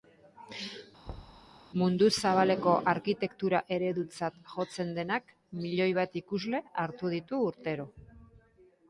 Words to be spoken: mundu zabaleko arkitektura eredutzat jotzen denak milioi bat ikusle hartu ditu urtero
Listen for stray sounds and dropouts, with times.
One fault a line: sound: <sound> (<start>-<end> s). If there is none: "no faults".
sound: thud (1.1-1.5 s)